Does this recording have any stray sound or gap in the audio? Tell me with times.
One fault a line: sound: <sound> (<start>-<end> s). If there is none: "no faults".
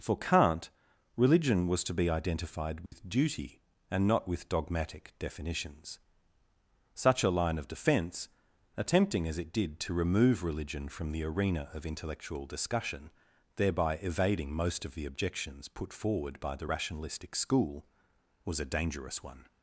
sound: dropout (2.9-2.9 s)